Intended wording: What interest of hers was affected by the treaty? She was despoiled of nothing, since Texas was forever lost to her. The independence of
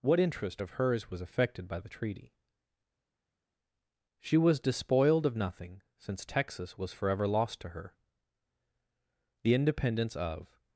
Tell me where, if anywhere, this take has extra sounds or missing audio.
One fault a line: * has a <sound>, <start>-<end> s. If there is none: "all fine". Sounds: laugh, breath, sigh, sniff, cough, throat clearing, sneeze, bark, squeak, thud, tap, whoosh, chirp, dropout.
all fine